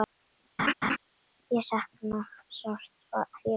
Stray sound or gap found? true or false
true